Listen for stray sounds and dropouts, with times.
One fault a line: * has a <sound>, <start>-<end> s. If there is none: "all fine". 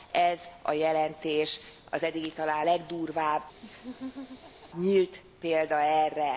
* has a laugh, 3.6-4.7 s